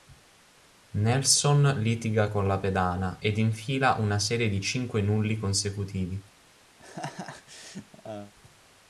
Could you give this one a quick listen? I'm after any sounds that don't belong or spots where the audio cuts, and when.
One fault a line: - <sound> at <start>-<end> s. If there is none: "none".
- laugh at 6.8-8.3 s